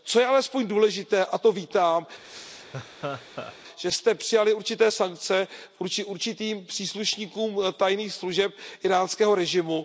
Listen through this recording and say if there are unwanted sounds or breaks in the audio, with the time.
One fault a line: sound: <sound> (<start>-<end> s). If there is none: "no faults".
sound: laugh (2.2-3.6 s)